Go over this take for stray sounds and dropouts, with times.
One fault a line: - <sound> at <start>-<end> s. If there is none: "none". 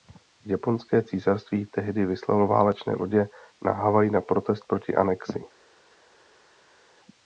none